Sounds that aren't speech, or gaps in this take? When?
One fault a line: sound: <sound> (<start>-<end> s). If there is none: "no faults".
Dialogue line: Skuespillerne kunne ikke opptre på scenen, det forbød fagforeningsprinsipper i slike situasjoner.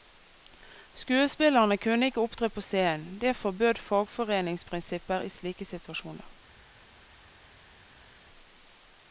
no faults